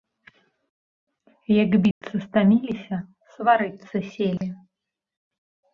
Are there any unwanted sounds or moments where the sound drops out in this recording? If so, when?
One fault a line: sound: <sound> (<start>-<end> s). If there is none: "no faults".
sound: dropout (1.9-2.0 s)
sound: dropout (4.4-4.4 s)